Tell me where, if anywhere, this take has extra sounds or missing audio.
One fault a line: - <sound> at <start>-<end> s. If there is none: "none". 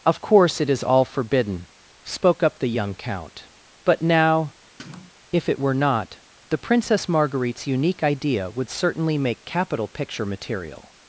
- sniff at 4.8-5.1 s